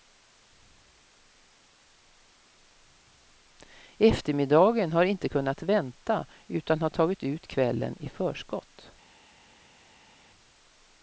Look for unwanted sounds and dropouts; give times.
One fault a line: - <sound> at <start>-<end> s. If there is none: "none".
none